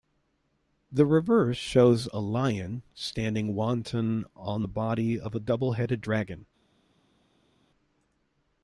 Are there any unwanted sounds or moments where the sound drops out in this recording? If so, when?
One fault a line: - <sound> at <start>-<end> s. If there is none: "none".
none